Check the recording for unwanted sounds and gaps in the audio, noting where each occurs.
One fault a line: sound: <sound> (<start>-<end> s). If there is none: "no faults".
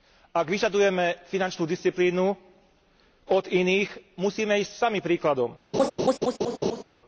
sound: laugh (5.7-6.8 s)